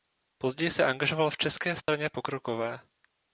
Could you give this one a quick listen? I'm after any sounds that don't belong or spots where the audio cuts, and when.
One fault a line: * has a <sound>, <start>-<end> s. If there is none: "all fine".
* has a dropout, 1.8-1.9 s